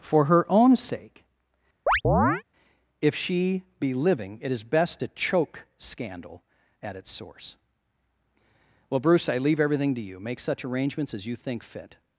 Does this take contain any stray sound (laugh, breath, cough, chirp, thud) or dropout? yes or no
yes